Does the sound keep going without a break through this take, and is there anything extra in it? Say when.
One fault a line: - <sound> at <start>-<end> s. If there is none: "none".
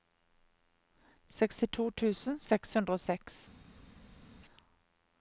none